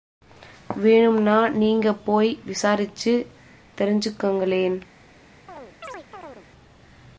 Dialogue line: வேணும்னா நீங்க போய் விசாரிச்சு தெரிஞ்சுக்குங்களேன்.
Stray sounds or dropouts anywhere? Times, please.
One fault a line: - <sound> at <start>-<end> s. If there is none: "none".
- chirp at 5.5-6.5 s